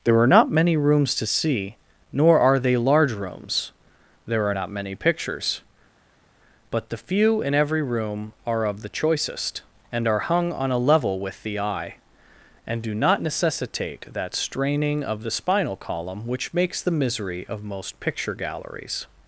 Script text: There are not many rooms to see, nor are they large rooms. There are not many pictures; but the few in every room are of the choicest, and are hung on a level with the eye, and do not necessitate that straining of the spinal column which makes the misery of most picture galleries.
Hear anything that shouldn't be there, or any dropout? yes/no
no